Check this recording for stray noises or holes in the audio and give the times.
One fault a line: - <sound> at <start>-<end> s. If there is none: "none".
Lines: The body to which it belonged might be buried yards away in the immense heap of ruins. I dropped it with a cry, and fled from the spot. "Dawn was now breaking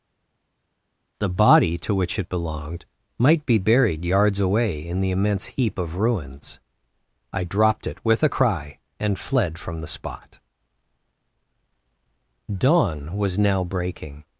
none